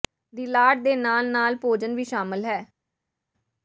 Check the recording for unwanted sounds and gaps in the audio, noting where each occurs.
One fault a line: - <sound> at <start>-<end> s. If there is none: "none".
none